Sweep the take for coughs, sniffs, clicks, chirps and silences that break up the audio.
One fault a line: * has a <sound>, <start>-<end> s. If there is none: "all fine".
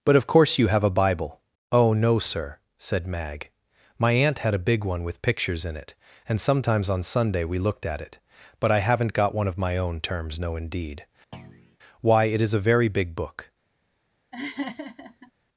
* has a thud, 11.3-11.8 s
* has a laugh, 14.3-15.3 s